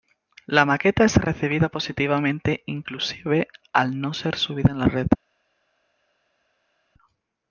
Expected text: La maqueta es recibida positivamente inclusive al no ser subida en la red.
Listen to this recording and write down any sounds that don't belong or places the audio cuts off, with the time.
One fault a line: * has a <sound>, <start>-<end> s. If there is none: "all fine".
all fine